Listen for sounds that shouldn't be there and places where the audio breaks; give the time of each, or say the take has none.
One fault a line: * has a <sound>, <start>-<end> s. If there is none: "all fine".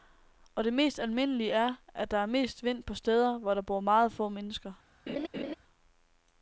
* has a laugh, 5.1-5.5 s